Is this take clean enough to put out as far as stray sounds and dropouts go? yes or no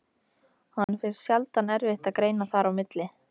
no